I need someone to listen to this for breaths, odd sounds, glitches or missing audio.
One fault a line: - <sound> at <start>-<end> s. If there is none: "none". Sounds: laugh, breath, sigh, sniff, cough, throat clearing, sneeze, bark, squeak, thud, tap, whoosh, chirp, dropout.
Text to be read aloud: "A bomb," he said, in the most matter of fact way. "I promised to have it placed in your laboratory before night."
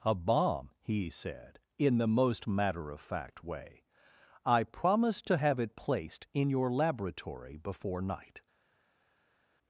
none